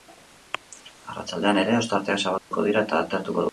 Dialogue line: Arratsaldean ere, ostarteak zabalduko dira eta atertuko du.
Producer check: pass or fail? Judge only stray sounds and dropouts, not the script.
fail